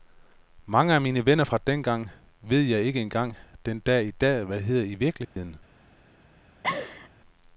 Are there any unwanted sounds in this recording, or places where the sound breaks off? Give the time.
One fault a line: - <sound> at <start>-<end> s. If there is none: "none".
- dropout at 5.2-5.4 s
- laugh at 6.6-7.1 s